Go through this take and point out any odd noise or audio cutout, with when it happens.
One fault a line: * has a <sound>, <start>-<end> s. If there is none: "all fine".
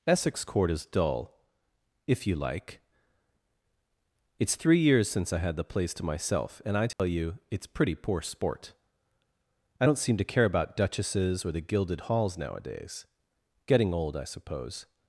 * has a dropout, 6.9-7.0 s